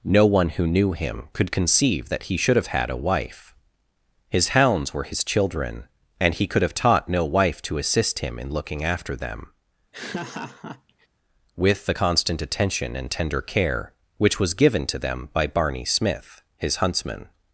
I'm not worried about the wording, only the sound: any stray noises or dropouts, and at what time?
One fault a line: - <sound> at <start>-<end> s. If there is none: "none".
- laugh at 9.9-11.1 s